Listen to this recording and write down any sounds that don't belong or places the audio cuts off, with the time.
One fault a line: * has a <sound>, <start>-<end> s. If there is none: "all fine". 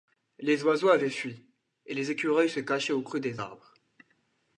all fine